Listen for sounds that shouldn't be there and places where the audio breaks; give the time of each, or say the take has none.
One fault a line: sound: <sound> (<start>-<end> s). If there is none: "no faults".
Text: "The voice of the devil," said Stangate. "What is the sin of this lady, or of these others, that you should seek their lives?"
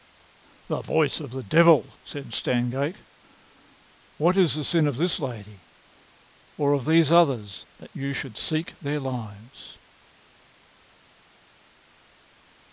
no faults